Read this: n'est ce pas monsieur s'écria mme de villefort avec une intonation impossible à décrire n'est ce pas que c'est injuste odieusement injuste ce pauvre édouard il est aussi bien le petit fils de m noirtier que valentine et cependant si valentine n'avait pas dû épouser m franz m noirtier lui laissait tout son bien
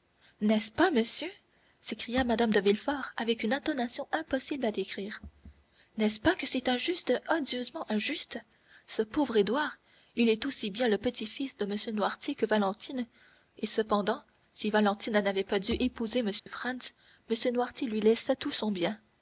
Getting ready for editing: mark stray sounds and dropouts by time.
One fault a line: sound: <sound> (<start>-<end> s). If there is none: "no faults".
sound: dropout (16.4-16.5 s)